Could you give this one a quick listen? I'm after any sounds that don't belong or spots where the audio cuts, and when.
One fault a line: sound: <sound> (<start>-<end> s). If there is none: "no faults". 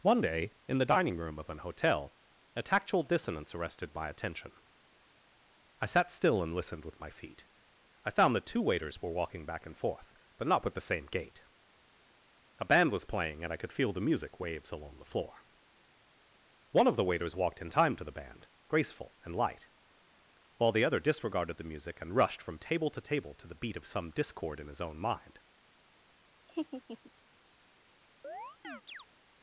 sound: laugh (26.5-27.1 s)
sound: chirp (28.2-29.1 s)